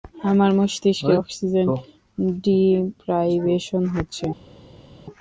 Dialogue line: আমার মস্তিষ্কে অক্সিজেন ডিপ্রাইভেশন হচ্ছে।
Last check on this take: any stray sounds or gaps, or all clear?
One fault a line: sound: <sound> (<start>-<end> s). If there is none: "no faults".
no faults